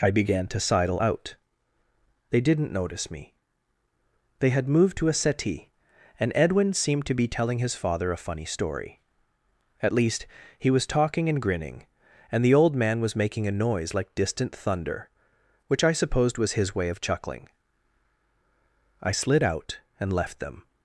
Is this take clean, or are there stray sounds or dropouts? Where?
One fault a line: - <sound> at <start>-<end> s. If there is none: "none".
none